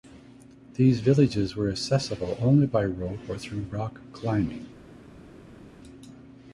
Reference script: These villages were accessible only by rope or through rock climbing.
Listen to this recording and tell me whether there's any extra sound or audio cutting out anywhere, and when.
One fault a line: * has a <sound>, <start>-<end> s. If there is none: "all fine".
all fine